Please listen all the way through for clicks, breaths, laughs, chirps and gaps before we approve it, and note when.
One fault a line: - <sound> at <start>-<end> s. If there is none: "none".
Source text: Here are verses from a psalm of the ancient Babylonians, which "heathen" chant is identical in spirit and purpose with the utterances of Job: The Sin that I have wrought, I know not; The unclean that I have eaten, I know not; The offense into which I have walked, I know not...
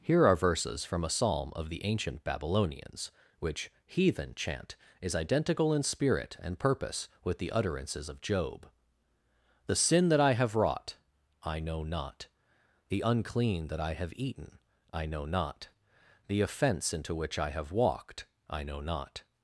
none